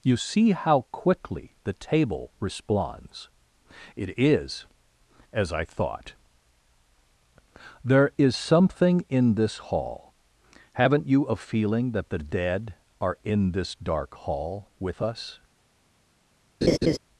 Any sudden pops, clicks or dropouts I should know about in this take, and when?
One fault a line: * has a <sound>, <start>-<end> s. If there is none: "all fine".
* has a laugh, 16.6-17.0 s